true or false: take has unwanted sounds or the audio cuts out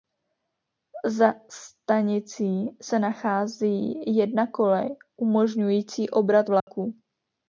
true